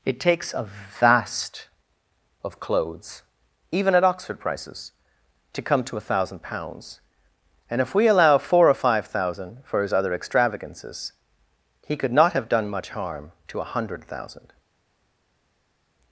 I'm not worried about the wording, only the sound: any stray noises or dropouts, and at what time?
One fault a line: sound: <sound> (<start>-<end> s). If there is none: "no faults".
no faults